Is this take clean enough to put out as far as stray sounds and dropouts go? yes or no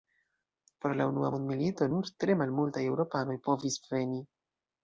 yes